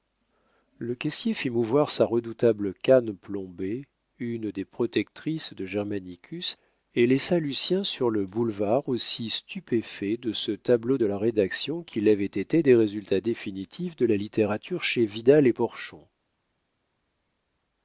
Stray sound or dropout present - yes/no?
no